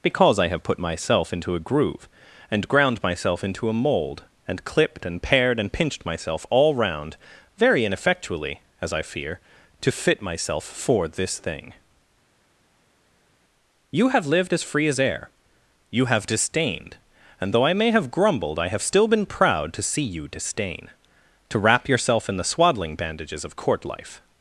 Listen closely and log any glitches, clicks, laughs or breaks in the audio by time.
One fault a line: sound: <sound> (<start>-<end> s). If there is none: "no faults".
no faults